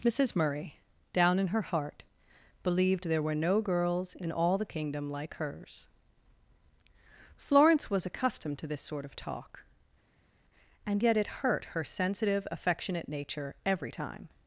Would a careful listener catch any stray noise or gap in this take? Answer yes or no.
no